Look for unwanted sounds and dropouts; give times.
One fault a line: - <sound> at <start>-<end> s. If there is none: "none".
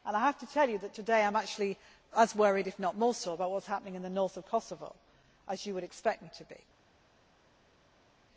none